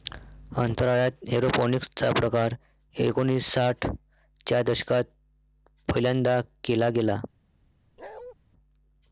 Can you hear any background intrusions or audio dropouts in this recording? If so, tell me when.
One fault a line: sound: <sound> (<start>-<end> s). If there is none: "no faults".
sound: bark (8.0-8.3 s)